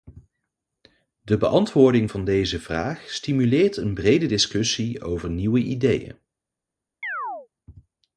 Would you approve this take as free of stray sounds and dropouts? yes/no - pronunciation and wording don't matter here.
no